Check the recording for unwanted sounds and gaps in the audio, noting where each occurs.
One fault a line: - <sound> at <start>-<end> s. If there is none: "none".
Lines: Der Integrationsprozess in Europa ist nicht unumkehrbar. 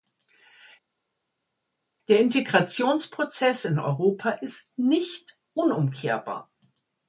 none